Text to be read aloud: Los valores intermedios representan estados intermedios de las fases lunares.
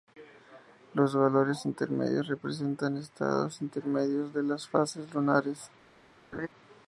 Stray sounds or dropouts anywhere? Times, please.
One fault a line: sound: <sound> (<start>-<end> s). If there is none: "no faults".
sound: laugh (6.3-6.5 s)